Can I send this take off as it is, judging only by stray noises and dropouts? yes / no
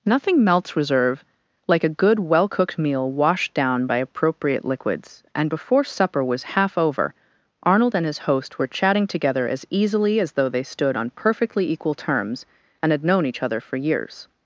yes